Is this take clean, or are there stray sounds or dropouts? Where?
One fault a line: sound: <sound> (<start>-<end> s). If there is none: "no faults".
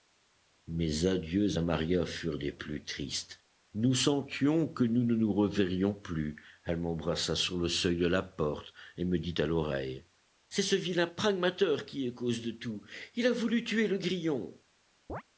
sound: chirp (15.1-15.2 s)